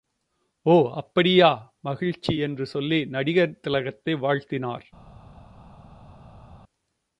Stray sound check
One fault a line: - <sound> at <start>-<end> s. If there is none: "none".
none